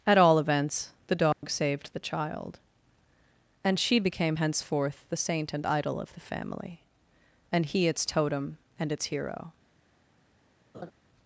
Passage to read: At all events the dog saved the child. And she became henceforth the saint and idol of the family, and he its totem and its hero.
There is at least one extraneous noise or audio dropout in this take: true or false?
true